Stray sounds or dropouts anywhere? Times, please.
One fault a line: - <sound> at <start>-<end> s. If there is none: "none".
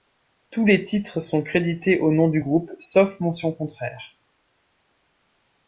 none